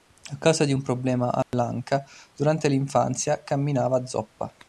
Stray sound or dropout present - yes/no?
yes